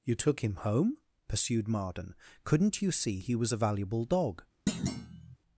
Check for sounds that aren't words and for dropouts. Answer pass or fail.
fail